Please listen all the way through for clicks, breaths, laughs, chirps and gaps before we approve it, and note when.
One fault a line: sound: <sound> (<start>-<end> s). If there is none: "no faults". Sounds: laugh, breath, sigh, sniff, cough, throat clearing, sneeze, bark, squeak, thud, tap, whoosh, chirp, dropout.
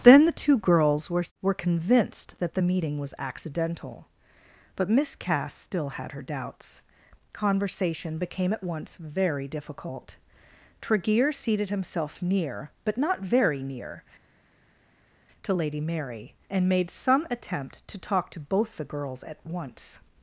no faults